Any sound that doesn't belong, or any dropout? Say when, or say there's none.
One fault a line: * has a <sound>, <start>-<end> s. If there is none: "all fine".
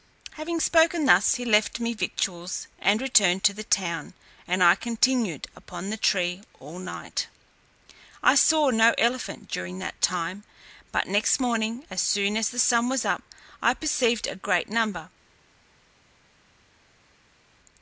all fine